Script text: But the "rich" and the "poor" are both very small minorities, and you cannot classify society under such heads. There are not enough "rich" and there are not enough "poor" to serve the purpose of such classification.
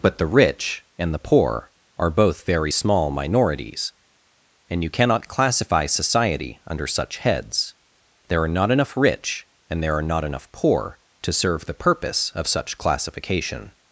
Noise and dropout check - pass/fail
pass